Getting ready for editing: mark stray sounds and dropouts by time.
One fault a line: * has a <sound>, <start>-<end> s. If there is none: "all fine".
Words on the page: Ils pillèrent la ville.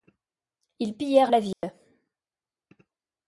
* has a dropout, 1.5-1.6 s